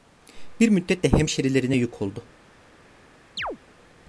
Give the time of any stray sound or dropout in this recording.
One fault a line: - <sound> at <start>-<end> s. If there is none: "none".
- chirp at 3.4-3.6 s